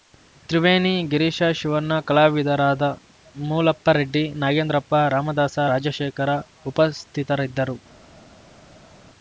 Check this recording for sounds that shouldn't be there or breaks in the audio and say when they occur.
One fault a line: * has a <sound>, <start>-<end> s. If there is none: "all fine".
all fine